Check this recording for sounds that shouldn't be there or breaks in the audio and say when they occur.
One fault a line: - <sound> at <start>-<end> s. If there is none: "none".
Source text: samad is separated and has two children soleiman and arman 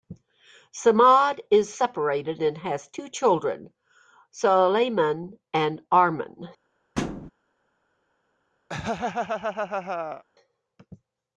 - thud at 7.0-7.3 s
- laugh at 8.7-10.2 s